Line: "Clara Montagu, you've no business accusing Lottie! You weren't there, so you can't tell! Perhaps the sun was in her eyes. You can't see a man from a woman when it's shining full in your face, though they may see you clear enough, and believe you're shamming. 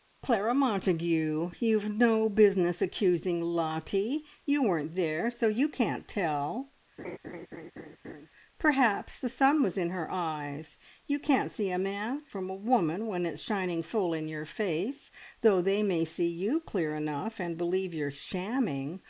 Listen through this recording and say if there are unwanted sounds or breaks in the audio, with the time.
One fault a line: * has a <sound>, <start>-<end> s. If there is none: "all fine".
* has a laugh, 7.0-8.3 s